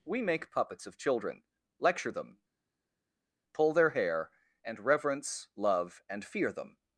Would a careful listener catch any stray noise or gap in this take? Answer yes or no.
no